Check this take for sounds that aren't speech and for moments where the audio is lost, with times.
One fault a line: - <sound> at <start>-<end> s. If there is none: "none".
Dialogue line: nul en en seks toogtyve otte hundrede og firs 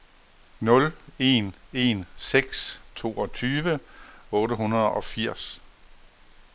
none